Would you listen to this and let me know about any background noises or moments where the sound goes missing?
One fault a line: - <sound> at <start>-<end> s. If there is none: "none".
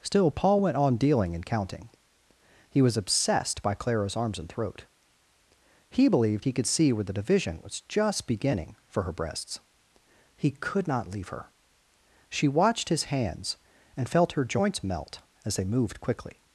none